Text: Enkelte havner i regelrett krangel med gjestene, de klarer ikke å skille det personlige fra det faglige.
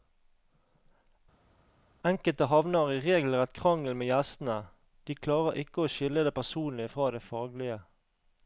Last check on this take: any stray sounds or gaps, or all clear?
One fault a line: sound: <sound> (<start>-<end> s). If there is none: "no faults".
no faults